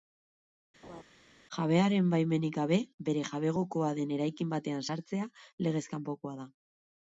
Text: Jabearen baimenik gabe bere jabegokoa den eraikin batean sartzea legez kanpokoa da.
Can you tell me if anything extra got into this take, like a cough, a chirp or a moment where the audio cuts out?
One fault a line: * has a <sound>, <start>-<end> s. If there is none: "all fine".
* has a laugh, 0.8-1.0 s